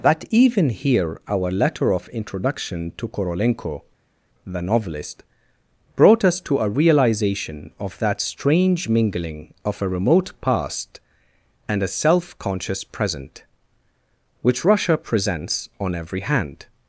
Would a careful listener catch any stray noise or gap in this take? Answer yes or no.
no